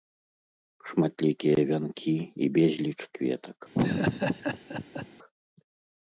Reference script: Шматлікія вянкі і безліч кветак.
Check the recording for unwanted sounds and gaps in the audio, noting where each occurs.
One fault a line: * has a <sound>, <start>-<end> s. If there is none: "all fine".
* has a laugh, 3.7-5.1 s